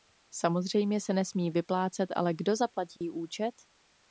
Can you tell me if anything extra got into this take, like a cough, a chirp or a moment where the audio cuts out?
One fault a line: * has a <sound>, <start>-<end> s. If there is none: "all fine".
* has a dropout, 3.0-3.0 s